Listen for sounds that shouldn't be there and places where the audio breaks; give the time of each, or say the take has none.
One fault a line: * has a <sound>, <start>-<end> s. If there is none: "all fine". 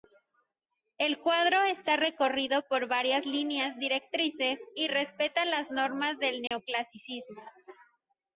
* has a dropout, 6.5-6.5 s